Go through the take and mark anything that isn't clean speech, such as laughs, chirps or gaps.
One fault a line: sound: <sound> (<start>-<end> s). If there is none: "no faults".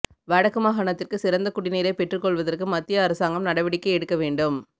no faults